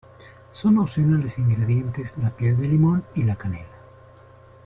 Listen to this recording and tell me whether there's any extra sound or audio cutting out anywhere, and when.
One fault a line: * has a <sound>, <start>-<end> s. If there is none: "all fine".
all fine